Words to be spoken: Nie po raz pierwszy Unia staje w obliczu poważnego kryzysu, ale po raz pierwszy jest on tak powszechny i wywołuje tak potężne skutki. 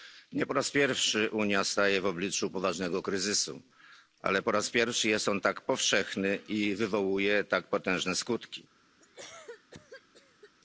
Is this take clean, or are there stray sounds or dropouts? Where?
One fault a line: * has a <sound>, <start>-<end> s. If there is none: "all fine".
* has a cough, 9.0-10.5 s